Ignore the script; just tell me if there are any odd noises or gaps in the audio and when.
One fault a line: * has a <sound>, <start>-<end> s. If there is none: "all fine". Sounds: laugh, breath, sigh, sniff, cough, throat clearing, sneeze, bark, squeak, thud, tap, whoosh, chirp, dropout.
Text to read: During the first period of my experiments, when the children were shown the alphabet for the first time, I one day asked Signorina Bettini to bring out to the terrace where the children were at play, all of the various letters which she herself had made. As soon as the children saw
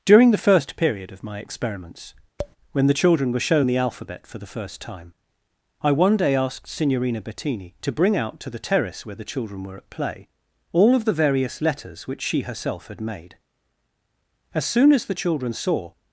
* has a tap, 2.4-2.6 s